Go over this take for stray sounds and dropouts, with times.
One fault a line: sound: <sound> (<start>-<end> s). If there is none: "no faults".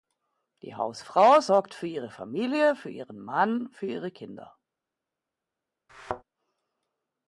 sound: thud (5.9-6.2 s)